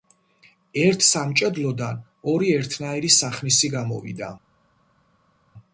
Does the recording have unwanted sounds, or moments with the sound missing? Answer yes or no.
no